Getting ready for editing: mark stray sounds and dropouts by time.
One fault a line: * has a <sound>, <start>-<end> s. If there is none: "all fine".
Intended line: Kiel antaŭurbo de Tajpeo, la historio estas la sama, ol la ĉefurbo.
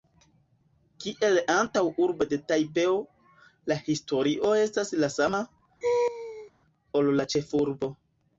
* has a laugh, 5.8-6.5 s